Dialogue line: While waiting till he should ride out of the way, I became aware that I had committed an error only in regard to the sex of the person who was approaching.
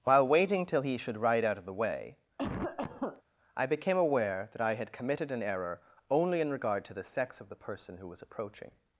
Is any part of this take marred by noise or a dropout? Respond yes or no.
yes